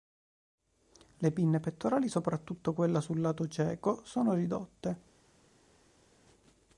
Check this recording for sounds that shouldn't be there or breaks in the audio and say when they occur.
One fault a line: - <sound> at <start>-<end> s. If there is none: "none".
none